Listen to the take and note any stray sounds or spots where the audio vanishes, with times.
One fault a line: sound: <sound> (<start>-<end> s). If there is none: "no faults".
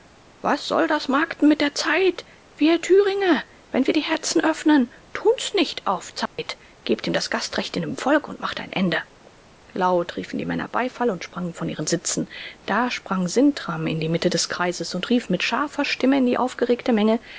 sound: dropout (6.3-6.4 s)